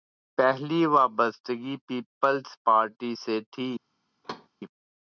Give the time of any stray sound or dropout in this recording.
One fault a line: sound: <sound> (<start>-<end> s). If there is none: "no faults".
sound: thud (4.2-4.5 s)